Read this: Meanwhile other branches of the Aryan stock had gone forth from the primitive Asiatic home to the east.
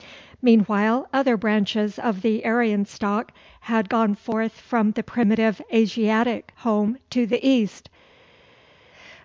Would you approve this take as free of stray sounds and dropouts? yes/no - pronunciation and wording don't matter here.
yes